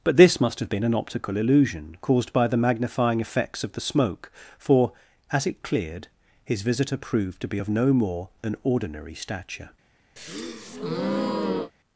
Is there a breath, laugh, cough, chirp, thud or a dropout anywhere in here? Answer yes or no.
yes